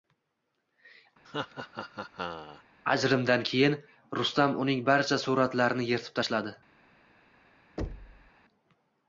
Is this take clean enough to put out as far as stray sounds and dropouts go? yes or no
no